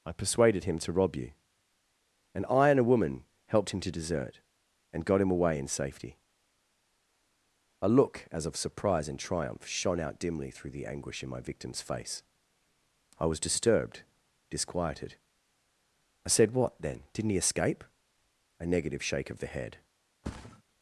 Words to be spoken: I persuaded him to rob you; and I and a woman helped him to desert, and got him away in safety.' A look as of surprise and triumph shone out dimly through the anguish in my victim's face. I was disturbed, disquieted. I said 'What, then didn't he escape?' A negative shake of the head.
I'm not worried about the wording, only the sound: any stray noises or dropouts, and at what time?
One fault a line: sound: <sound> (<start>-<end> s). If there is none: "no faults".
sound: thud (20.2-20.6 s)